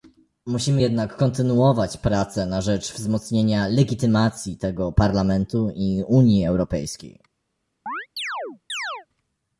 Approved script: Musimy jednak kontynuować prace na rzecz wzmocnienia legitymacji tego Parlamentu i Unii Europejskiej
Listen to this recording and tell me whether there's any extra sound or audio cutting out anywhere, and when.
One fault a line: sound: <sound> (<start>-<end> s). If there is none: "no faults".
sound: chirp (7.9-9.1 s)